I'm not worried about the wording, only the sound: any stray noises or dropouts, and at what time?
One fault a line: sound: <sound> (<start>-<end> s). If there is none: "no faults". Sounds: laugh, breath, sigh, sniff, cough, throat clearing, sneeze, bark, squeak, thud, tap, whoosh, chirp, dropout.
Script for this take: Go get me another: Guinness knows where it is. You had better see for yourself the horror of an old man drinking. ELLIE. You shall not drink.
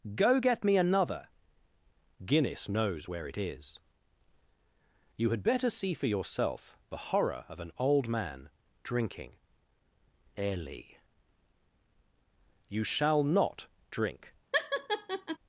sound: laugh (14.5-15.4 s)